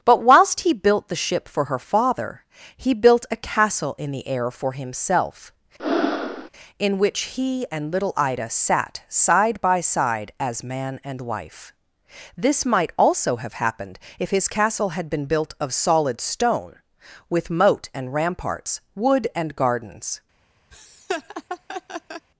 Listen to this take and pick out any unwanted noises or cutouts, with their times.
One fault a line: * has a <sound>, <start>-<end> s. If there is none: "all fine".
* has a breath, 5.8-6.5 s
* has a laugh, 20.7-22.3 s